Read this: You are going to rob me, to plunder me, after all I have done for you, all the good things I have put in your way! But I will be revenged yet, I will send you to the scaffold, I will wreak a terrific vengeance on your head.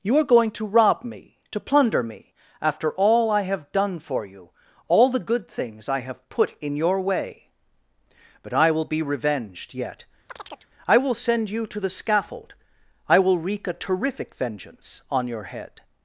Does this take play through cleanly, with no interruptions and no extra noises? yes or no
no